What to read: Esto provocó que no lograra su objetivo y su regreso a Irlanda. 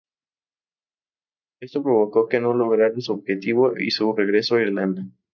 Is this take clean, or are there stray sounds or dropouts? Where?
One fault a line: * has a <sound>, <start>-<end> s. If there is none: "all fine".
all fine